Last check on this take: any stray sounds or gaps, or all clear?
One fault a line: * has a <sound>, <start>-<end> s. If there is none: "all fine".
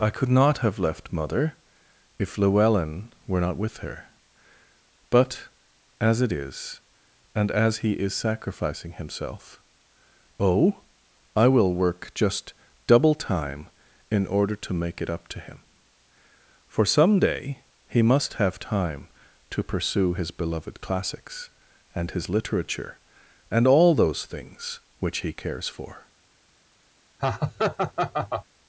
* has a laugh, 27.2-28.5 s